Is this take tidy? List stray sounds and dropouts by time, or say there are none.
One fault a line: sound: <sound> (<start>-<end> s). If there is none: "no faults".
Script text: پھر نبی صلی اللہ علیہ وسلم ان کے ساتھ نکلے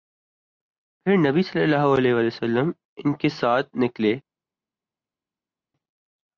no faults